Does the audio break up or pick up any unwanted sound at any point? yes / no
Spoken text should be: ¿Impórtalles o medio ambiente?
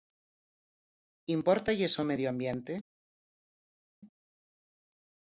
no